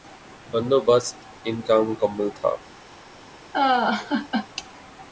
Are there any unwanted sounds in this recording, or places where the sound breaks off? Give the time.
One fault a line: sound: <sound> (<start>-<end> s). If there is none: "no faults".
sound: laugh (3.5-4.5 s)